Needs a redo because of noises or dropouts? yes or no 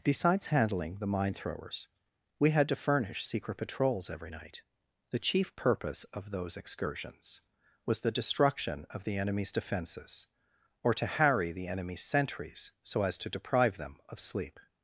no